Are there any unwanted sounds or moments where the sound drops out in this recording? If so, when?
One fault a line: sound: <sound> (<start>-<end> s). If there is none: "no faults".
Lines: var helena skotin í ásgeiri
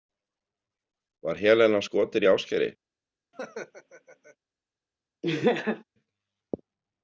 sound: laugh (3.3-4.4 s)
sound: laugh (5.2-5.8 s)